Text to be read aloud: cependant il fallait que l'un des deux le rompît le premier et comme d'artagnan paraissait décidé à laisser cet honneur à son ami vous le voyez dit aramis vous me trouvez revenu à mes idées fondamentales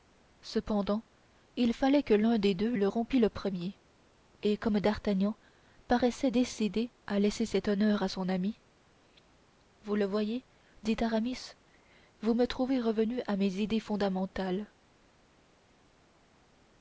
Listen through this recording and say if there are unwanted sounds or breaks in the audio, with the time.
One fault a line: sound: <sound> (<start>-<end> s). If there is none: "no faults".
no faults